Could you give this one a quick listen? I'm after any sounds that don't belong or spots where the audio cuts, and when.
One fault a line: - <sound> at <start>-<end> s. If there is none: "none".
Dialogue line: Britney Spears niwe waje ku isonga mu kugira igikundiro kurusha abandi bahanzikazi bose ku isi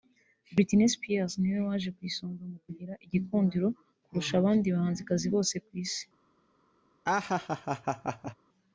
- laugh at 7.1-8.4 s